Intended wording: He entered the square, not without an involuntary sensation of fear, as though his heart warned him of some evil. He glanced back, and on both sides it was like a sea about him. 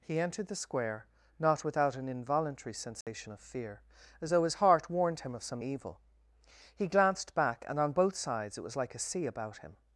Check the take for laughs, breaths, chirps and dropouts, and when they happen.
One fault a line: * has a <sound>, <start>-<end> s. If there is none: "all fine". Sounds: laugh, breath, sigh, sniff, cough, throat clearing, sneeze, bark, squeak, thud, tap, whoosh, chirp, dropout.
* has a dropout, 3.0-3.1 s